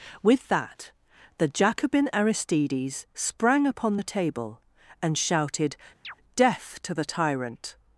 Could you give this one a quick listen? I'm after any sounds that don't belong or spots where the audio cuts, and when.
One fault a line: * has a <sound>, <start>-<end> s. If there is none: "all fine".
* has a chirp, 6.0-6.2 s